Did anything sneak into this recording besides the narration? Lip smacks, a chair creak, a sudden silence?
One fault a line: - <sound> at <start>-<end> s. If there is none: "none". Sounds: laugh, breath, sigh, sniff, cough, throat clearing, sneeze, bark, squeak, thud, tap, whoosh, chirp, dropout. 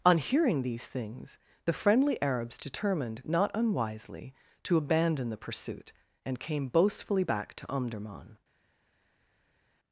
none